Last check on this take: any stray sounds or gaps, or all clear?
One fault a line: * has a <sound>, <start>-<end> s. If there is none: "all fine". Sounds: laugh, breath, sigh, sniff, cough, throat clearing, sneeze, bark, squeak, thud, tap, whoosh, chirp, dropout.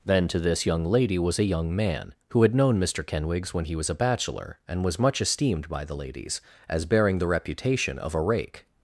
all fine